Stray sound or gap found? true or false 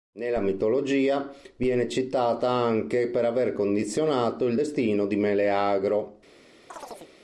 true